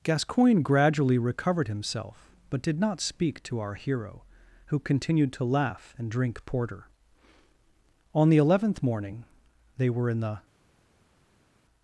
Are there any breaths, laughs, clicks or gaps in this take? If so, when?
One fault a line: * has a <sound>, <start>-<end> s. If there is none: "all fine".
all fine